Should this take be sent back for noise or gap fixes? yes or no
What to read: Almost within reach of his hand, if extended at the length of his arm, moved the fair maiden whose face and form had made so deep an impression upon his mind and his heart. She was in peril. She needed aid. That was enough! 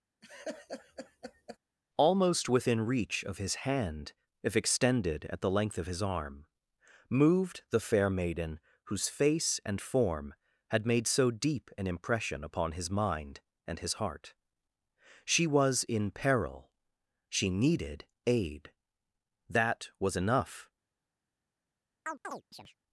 yes